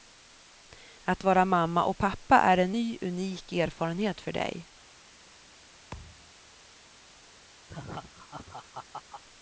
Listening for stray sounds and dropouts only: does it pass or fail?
fail